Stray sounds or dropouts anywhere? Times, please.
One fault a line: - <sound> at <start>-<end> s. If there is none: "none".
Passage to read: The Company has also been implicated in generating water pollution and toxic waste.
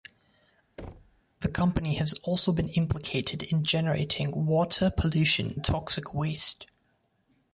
- thud at 0.8-1.2 s